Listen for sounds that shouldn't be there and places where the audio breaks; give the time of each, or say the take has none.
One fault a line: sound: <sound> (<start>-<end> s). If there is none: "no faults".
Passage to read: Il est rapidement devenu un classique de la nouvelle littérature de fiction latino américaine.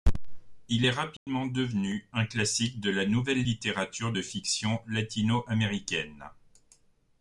sound: dropout (1.2-1.3 s)